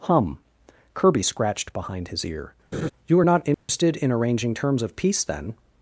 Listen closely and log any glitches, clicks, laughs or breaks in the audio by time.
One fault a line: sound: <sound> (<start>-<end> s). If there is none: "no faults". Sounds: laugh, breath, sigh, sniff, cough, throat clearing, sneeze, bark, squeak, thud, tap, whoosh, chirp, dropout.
sound: laugh (2.7-2.9 s)
sound: dropout (3.5-3.7 s)